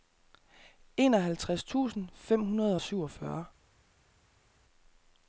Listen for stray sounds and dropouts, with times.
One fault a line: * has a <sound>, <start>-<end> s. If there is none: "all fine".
all fine